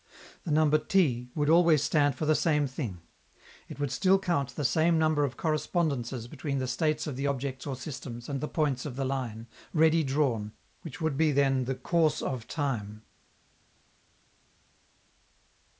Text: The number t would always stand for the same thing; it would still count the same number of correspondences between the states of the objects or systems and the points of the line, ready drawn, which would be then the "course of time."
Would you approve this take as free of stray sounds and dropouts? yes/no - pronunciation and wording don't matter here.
yes